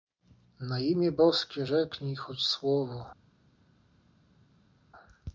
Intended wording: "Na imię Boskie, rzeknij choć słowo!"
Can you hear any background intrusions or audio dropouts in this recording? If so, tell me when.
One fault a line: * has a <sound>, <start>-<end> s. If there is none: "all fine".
all fine